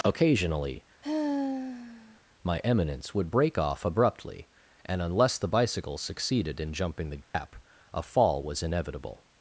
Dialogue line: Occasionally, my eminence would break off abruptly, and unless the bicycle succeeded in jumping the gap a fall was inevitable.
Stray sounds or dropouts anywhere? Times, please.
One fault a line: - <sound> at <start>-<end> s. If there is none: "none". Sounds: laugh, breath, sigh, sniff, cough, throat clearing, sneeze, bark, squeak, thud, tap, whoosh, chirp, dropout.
- sigh at 1.0-2.2 s
- dropout at 7.2-7.3 s